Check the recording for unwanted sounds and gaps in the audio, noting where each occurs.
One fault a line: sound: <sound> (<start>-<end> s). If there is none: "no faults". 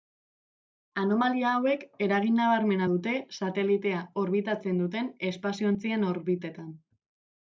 no faults